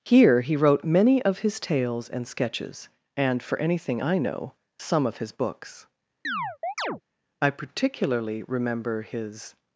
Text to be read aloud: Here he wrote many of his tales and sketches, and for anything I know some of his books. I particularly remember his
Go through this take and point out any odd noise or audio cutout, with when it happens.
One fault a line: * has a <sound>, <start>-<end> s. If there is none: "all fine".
* has a chirp, 6.2-7.0 s